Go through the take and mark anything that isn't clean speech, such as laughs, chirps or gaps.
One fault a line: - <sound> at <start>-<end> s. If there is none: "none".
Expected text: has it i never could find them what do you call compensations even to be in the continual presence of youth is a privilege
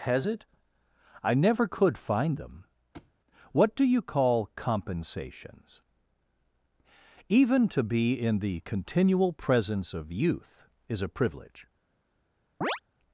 - thud at 2.9-3.1 s
- chirp at 12.6-12.8 s